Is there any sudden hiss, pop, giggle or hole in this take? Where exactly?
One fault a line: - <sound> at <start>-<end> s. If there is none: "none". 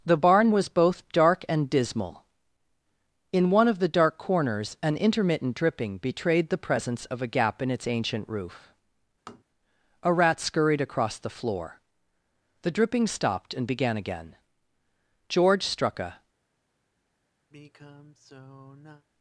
- tap at 9.3-9.4 s
- sigh at 17.5-19.1 s